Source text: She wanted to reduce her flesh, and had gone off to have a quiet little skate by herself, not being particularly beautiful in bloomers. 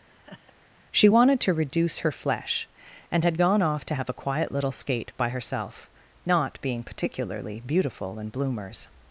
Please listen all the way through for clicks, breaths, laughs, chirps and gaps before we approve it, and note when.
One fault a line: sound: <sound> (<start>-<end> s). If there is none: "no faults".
sound: laugh (0.1-0.5 s)